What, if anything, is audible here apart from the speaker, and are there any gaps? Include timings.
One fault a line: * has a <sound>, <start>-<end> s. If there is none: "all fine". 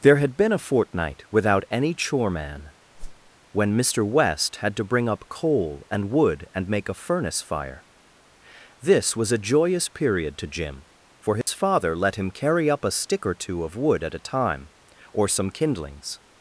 * has a whoosh, 2.9-3.3 s
* has a dropout, 11.4-11.5 s